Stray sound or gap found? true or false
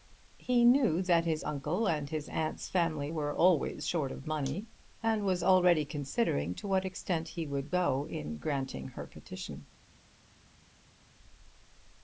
false